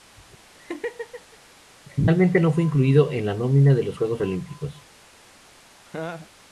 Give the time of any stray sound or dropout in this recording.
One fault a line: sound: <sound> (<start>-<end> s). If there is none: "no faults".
sound: laugh (0.5-1.4 s)
sound: laugh (5.8-6.3 s)